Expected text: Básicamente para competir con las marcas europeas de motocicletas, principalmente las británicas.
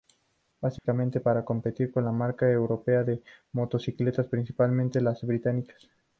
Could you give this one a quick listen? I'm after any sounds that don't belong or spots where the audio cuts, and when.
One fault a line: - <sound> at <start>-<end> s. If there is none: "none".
- dropout at 0.8-0.8 s